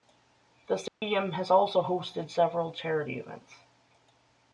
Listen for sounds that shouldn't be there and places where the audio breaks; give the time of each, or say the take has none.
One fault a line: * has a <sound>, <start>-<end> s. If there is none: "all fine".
* has a dropout, 0.9-1.0 s